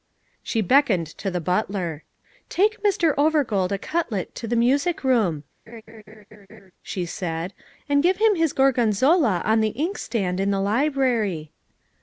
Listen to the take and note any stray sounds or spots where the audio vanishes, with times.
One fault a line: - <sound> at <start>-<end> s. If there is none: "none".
- laugh at 5.7-6.7 s